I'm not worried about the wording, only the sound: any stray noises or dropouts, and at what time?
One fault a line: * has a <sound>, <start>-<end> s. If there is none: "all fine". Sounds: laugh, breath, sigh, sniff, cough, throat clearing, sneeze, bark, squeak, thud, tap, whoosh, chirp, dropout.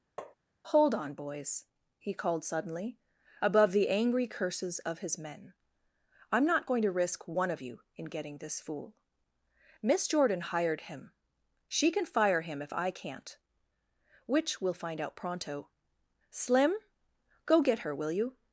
* has a tap, 0.2-0.4 s